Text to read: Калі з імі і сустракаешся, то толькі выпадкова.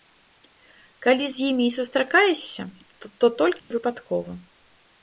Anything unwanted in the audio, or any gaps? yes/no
yes